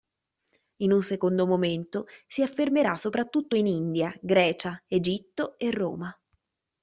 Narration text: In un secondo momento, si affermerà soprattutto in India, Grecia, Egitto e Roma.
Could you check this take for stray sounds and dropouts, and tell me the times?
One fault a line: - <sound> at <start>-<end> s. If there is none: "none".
none